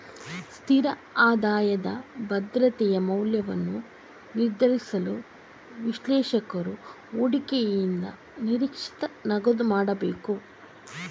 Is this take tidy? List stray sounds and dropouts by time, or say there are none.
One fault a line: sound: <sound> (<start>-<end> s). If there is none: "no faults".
no faults